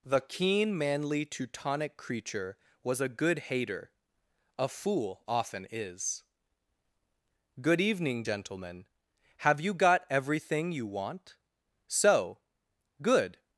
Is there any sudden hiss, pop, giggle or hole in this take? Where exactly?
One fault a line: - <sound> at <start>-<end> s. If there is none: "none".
none